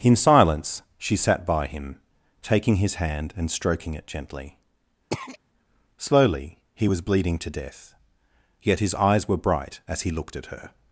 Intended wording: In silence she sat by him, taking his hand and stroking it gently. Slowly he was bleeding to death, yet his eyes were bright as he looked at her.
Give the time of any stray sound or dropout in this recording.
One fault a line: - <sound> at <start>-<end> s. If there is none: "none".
- throat clearing at 5.1-5.4 s